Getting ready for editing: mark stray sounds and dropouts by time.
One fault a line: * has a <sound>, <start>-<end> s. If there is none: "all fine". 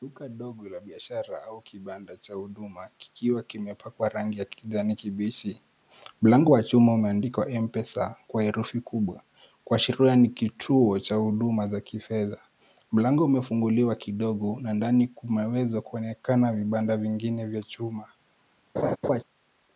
* has a laugh, 18.8-19.2 s